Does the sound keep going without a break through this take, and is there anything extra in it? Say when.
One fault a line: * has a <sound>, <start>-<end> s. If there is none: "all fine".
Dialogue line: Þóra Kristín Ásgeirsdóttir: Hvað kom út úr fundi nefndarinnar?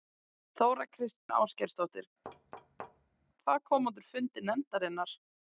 * has a dropout, 1.2-1.3 s
* has a thud, 2.2-3.3 s